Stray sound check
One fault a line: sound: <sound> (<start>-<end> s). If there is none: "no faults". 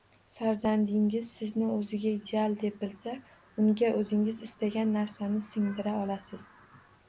no faults